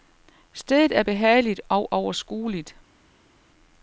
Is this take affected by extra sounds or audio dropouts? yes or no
no